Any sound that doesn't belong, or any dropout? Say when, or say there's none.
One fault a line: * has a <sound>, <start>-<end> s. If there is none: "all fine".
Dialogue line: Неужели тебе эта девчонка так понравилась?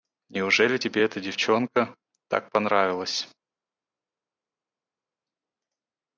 all fine